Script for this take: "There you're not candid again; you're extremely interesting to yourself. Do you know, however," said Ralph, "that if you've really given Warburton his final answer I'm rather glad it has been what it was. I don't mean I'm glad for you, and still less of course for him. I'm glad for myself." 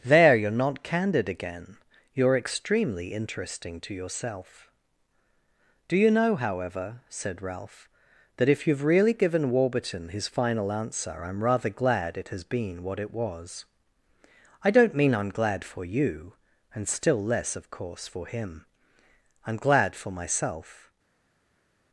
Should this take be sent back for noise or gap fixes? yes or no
no